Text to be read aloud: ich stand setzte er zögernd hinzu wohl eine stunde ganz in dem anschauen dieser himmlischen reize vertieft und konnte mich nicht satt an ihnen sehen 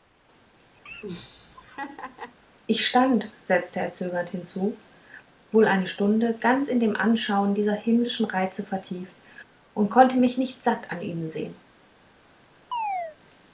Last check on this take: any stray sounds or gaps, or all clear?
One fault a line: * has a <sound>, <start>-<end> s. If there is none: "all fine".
* has a laugh, 0.9-2.4 s
* has a chirp, 12.7-13.2 s